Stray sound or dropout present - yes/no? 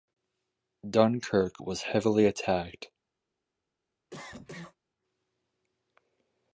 yes